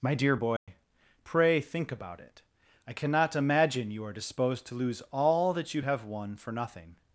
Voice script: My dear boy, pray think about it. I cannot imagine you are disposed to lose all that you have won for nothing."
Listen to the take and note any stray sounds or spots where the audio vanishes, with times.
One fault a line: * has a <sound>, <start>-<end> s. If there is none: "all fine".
* has a dropout, 0.6-0.7 s